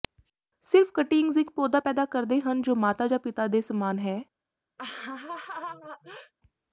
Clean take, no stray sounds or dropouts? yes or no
no